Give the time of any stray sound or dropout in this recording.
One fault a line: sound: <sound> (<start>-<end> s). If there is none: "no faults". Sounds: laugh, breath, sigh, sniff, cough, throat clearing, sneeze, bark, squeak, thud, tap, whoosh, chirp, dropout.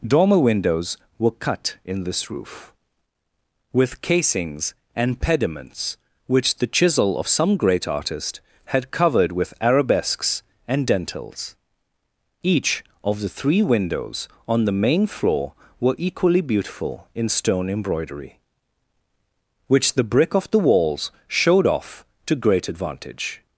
no faults